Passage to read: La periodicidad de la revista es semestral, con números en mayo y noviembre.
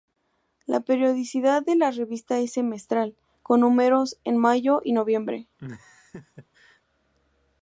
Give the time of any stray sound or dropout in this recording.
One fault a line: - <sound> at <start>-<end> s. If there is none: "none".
- laugh at 5.6-6.8 s